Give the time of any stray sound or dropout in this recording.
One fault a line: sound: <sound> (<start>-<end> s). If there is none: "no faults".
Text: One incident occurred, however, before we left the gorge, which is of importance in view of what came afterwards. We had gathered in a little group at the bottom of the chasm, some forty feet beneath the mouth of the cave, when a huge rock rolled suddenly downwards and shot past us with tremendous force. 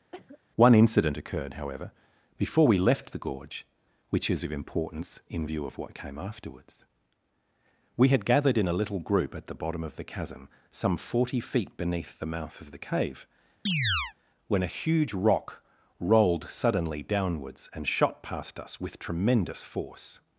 sound: cough (0.1-0.4 s)
sound: chirp (13.7-14.1 s)